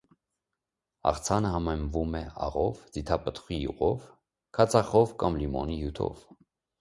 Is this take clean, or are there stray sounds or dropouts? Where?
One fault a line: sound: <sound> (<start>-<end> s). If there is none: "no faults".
no faults